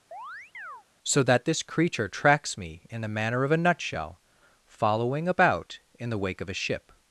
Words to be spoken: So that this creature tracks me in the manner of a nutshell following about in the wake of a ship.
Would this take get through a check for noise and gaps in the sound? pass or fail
fail